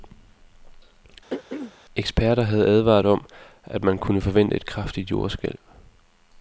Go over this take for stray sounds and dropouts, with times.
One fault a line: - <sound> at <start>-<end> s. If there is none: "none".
- throat clearing at 1.3-1.7 s